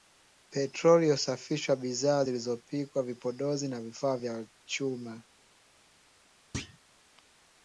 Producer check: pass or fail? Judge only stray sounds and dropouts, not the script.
fail